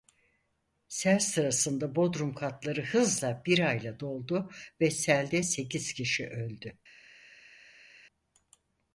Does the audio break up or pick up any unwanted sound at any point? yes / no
no